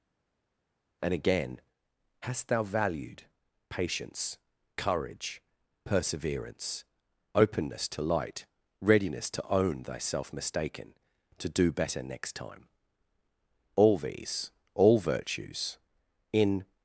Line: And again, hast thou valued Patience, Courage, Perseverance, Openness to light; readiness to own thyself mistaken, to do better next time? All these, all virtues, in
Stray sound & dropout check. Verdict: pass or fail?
pass